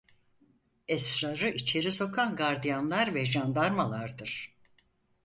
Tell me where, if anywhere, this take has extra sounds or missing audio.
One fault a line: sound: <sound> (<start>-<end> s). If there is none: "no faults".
no faults